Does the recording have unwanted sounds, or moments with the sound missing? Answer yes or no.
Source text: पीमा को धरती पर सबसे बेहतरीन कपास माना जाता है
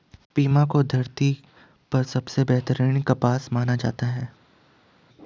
no